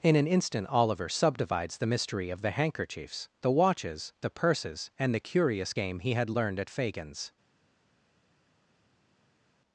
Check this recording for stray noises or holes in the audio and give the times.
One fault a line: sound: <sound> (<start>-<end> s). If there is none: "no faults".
no faults